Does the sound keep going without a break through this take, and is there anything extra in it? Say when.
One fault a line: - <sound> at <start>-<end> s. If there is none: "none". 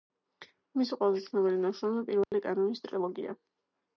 - dropout at 2.2-2.3 s